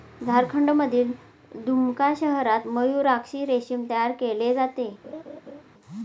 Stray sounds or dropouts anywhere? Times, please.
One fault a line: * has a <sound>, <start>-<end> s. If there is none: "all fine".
* has a laugh, 5.0-5.6 s